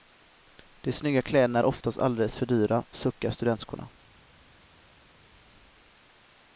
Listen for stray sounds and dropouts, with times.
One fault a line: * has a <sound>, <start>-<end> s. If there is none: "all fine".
all fine